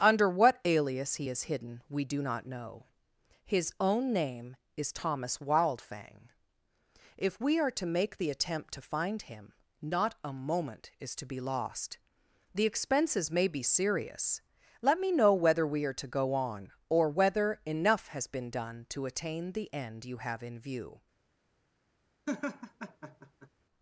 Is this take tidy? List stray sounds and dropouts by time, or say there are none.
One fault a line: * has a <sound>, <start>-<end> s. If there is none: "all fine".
* has a laugh, 22.3-23.5 s